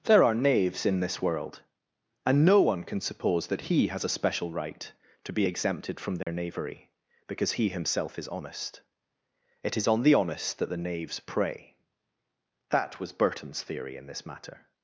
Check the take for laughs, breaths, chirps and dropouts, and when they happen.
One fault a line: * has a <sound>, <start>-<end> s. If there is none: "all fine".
* has a dropout, 6.2-6.3 s